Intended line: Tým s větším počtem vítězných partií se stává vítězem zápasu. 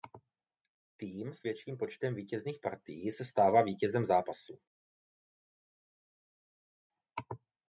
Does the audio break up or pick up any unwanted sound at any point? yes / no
no